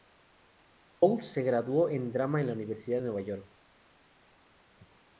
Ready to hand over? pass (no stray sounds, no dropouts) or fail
pass